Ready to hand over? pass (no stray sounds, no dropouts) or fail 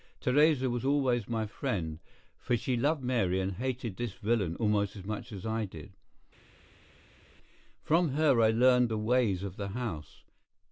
pass